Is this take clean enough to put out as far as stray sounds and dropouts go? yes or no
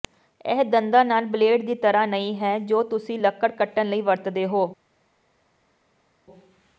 yes